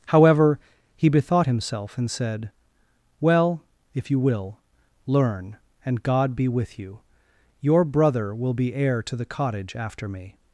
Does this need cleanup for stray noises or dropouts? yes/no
no